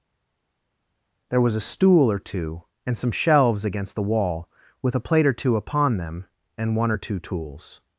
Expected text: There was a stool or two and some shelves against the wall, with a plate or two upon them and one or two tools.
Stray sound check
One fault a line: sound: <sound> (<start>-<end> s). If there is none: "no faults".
no faults